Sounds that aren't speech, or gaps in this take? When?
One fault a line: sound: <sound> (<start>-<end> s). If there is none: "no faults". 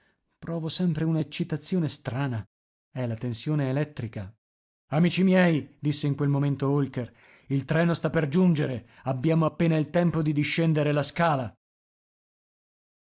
no faults